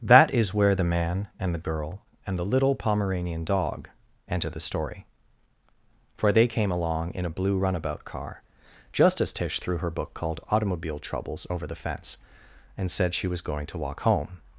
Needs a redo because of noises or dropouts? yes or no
no